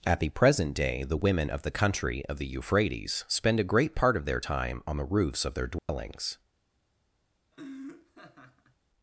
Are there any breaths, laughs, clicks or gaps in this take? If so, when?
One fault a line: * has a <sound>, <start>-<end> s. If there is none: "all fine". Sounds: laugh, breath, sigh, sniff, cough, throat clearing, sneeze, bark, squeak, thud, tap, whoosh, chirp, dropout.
* has a dropout, 5.8-5.9 s
* has a laugh, 7.5-8.8 s